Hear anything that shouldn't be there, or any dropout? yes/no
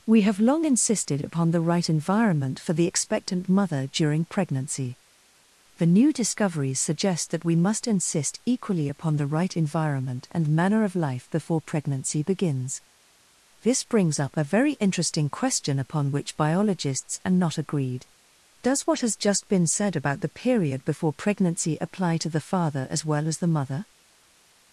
no